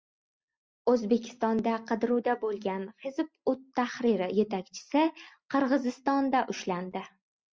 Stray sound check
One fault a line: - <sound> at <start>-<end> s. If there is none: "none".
none